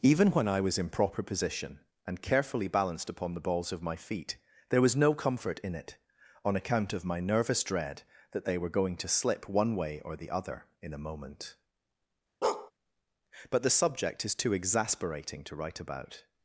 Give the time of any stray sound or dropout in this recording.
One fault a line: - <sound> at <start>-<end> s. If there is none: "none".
- bark at 12.4-12.7 s